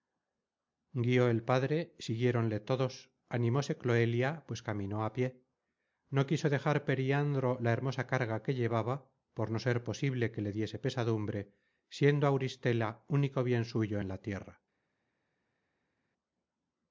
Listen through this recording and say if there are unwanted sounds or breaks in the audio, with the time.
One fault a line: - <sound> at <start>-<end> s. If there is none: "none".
none